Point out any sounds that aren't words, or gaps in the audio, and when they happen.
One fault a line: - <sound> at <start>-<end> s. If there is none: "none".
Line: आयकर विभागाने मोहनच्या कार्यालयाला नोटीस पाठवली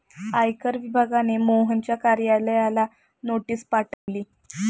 - dropout at 3.9-4.1 s